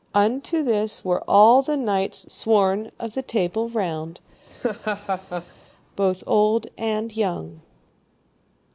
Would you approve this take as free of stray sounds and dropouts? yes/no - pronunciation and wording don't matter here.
no